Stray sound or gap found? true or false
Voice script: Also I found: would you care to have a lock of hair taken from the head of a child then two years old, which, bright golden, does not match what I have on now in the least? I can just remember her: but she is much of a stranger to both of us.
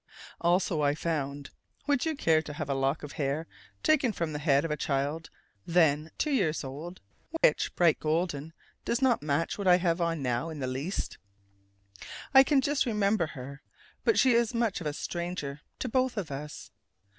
true